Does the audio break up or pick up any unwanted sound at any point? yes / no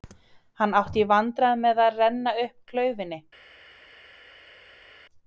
no